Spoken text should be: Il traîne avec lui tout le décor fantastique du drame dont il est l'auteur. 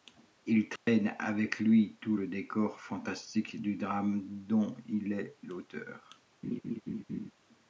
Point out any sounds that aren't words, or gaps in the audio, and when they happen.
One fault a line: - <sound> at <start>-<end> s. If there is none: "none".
- dropout at 0.8-0.9 s
- laugh at 6.4-7.3 s